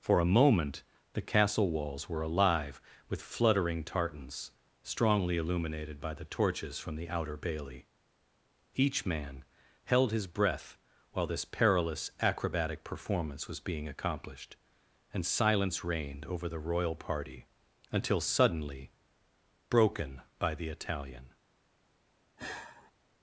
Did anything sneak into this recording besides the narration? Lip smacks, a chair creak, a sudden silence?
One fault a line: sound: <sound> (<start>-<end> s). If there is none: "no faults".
sound: sigh (22.4-22.9 s)